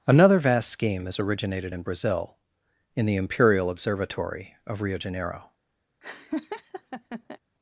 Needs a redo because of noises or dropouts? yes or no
yes